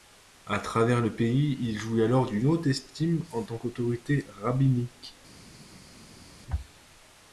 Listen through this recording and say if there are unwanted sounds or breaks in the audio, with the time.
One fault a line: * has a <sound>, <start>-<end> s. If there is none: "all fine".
all fine